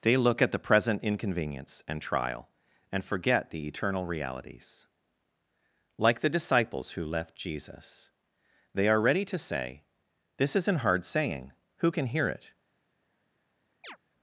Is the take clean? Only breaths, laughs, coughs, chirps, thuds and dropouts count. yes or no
no